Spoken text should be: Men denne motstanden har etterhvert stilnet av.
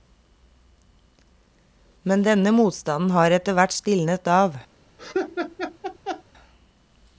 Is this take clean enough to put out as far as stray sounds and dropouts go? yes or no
no